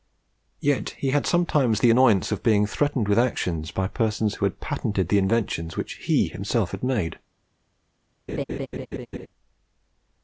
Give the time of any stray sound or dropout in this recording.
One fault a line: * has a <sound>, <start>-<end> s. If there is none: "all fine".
* has a laugh, 8.3-9.3 s